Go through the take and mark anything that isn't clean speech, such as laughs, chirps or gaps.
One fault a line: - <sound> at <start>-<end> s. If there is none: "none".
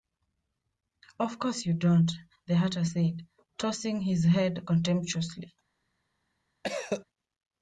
- cough at 6.6-7.0 s